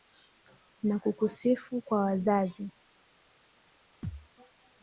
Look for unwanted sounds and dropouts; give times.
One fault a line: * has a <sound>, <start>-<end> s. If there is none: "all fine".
* has a thud, 4.0-4.3 s